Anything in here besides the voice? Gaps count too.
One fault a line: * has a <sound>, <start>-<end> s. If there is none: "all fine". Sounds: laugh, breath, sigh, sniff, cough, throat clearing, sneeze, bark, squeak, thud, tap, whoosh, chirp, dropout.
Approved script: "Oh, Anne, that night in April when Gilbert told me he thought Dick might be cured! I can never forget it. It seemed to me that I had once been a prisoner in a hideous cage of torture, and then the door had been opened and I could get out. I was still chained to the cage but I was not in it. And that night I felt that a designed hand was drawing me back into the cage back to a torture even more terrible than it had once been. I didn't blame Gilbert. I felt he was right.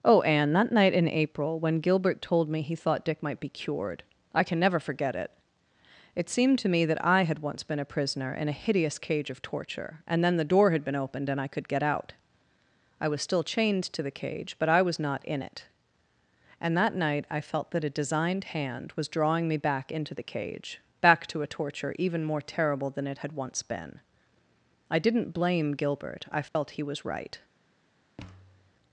* has a dropout, 26.5-26.5 s
* has a thud, 28.2-28.7 s